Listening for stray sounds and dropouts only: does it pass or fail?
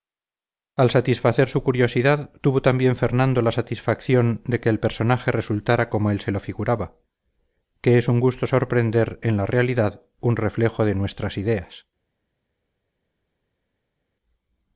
pass